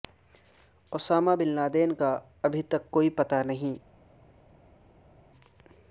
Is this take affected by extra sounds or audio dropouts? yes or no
no